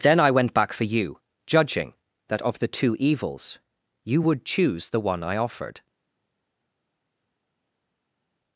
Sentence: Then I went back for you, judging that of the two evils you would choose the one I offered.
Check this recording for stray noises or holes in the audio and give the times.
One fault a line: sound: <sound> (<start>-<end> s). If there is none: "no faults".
no faults